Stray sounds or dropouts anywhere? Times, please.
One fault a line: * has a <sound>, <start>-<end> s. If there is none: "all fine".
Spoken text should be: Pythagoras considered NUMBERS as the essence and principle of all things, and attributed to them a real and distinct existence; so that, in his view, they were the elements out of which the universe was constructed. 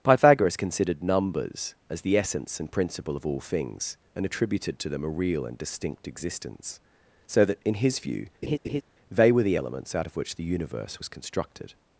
* has a laugh, 8.4-8.8 s